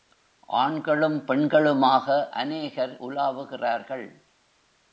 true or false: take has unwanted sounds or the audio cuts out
false